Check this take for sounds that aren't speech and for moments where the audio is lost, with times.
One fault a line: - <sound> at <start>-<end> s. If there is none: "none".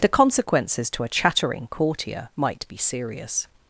none